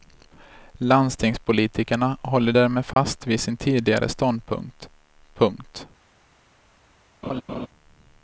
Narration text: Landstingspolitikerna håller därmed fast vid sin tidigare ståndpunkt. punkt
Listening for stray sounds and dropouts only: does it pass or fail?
fail